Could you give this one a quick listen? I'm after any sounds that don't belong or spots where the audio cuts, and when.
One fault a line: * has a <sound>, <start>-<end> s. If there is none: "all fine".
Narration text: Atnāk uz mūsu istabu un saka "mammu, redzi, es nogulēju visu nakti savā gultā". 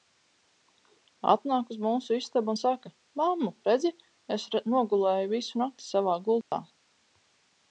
* has a dropout, 6.4-6.5 s